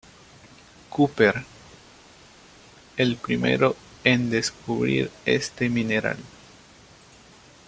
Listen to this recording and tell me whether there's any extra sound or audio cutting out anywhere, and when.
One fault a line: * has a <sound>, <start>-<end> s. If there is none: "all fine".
all fine